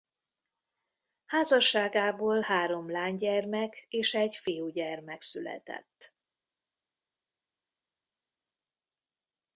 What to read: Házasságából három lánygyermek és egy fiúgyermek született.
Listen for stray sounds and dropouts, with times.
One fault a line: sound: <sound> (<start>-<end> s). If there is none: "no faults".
no faults